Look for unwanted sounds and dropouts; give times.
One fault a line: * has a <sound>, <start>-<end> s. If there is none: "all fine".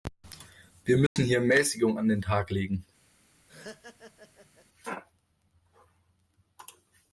* has a dropout, 1.1-1.2 s
* has a laugh, 3.5-4.7 s